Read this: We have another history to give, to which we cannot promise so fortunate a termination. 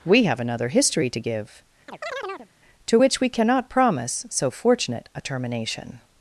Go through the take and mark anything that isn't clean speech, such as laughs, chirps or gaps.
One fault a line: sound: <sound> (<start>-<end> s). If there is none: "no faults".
sound: chirp (1.9-2.5 s)